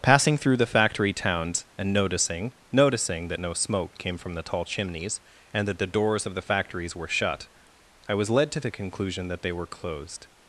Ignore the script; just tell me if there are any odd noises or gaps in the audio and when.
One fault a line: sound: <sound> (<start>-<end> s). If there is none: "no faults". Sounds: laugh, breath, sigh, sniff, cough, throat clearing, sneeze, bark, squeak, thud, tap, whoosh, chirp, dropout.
no faults